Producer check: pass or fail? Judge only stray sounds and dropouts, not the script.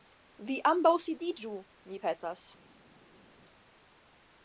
pass